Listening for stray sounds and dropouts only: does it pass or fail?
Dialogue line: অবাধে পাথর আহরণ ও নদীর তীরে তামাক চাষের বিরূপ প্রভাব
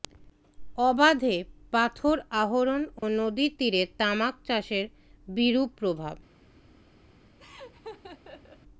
fail